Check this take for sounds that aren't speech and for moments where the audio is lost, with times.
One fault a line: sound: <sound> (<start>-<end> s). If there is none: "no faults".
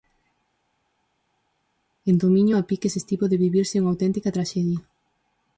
no faults